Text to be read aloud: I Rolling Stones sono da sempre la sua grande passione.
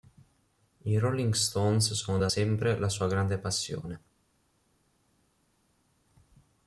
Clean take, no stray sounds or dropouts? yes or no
yes